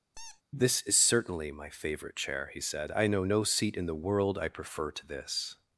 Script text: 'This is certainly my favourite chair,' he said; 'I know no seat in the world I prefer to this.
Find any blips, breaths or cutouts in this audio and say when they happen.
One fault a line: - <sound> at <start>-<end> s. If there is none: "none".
- squeak at 0.1-0.4 s